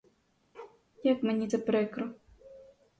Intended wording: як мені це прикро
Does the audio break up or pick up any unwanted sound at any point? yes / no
yes